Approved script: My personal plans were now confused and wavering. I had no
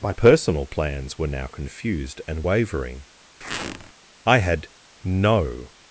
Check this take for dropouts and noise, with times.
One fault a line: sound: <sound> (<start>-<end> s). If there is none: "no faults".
sound: squeak (3.4-3.9 s)